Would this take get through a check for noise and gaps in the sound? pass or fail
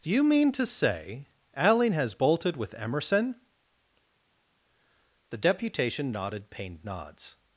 pass